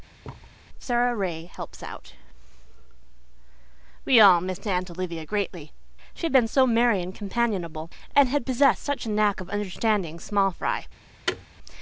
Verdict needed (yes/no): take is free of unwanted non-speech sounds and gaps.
no